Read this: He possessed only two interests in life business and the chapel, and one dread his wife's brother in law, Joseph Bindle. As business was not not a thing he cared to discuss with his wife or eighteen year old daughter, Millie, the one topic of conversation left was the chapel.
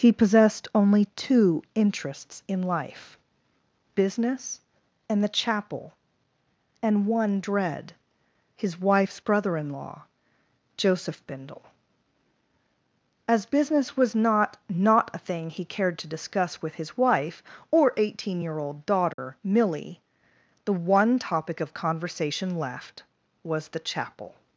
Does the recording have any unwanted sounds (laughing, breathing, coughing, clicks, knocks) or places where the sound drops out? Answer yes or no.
yes